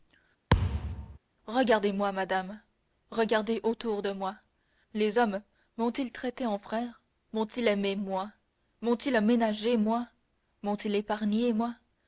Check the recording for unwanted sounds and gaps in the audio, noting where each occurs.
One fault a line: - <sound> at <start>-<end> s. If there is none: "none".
- thud at 0.5-1.2 s